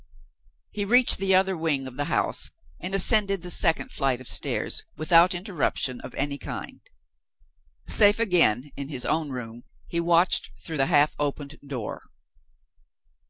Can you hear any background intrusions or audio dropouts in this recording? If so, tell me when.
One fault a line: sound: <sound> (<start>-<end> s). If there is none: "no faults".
no faults